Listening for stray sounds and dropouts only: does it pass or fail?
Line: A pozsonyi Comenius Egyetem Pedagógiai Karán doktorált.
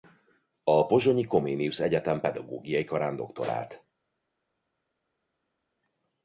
pass